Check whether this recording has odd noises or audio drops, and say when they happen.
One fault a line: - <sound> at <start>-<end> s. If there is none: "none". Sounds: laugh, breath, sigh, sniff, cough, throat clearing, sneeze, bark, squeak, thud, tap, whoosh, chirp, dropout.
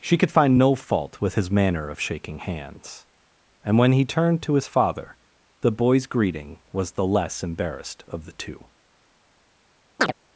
- chirp at 10.0-10.1 s